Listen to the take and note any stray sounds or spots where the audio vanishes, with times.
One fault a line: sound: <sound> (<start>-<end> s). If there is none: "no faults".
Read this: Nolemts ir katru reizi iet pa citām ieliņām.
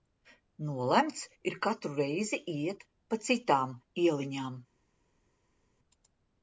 no faults